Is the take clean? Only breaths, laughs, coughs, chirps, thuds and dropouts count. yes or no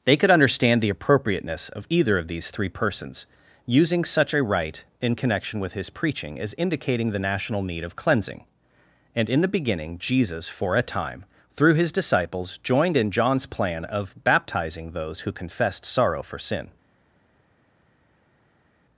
yes